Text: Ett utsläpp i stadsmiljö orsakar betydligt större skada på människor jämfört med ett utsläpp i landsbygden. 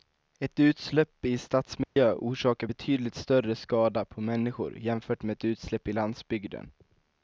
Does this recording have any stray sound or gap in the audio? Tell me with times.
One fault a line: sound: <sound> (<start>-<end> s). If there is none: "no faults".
sound: dropout (1.8-2.0 s)